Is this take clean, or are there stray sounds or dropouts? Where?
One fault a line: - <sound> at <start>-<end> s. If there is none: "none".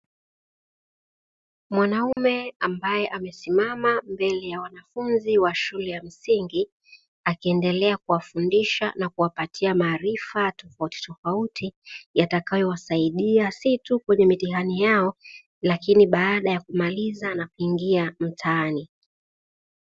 - dropout at 2.1-2.2 s